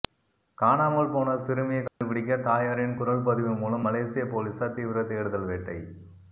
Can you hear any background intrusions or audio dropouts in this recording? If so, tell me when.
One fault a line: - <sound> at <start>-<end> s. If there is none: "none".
- dropout at 1.9-2.0 s